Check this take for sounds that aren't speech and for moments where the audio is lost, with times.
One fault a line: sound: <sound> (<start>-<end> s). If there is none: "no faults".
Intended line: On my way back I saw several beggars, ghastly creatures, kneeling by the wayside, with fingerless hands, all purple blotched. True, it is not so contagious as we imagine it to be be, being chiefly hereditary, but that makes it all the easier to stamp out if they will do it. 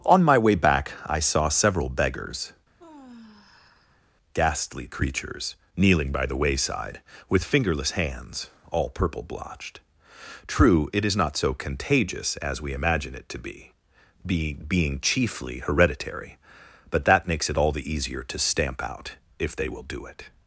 sound: sigh (2.8-4.0 s)